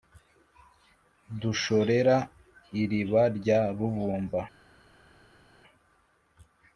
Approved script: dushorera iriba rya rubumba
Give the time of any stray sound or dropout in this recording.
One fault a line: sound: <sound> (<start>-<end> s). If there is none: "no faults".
no faults